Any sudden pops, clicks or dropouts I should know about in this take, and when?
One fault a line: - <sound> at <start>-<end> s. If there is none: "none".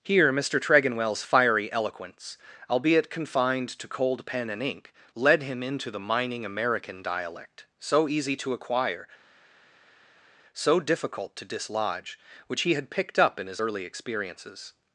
none